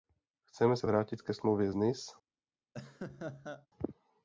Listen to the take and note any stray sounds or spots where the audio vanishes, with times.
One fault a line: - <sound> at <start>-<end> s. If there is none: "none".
- laugh at 2.7-3.7 s